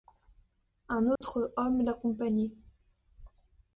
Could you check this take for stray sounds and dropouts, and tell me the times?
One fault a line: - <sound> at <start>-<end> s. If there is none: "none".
- dropout at 1.2-1.2 s